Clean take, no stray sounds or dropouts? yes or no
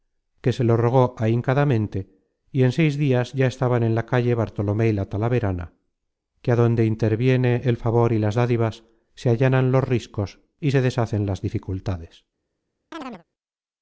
no